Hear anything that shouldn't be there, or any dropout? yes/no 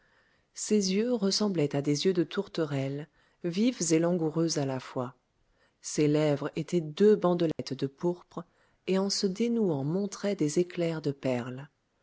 yes